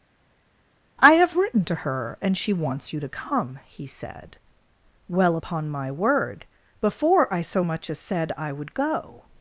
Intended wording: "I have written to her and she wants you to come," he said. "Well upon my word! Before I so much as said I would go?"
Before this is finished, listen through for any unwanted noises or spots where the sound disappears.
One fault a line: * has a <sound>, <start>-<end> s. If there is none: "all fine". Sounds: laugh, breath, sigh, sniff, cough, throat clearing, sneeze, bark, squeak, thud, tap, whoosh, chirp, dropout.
all fine